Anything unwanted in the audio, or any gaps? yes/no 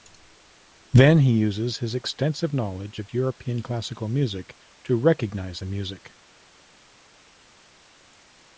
no